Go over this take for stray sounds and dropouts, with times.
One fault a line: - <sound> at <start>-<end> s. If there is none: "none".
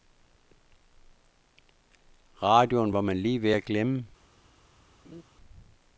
- laugh at 5.0-5.2 s